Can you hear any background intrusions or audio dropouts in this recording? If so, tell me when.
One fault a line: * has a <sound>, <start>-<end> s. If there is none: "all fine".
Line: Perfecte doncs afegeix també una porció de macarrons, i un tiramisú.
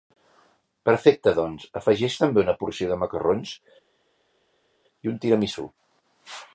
all fine